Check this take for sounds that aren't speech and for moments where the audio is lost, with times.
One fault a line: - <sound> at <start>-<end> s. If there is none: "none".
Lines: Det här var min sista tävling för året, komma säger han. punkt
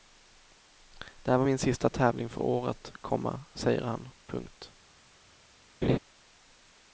- laugh at 5.8-6.0 s